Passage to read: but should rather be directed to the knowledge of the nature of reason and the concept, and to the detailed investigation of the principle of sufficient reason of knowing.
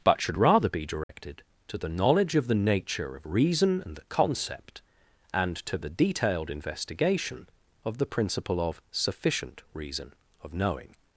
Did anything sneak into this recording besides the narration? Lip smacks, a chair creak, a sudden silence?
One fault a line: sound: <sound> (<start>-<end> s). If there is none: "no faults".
sound: dropout (1.0-1.1 s)